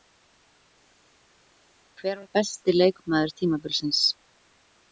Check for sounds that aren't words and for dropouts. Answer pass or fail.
pass